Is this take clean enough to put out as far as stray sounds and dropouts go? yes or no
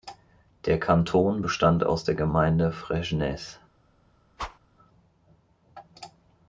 no